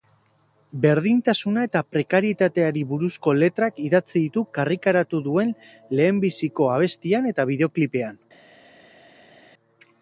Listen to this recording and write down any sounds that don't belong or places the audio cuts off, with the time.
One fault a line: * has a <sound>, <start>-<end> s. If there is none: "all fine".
all fine